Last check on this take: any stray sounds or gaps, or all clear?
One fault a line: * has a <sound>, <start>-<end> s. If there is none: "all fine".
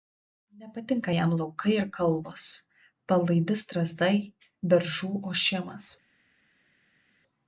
all fine